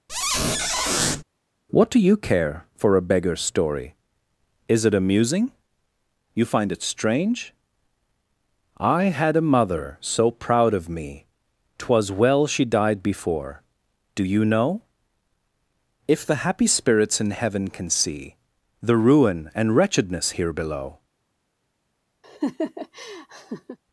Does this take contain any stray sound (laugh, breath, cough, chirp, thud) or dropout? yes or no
yes